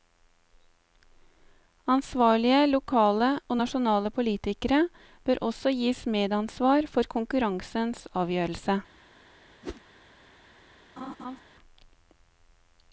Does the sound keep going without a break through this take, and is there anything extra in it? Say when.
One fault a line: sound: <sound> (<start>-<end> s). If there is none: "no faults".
sound: whoosh (9.6-9.8 s)
sound: laugh (11.0-11.4 s)